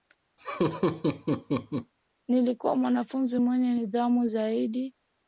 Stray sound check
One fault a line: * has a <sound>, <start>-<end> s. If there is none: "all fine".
* has a laugh, 0.4-1.9 s